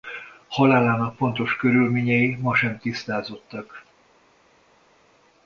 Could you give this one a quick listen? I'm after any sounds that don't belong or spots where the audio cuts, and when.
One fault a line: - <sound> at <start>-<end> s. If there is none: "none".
none